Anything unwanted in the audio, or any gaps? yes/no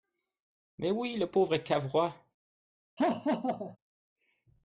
yes